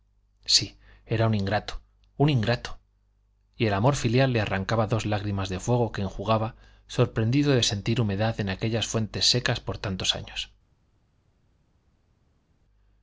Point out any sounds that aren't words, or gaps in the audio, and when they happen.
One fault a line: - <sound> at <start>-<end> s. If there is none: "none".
none